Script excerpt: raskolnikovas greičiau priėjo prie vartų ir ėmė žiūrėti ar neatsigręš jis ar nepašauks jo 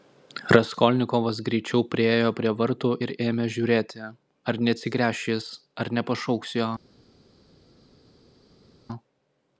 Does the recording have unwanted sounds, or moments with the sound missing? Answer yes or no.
no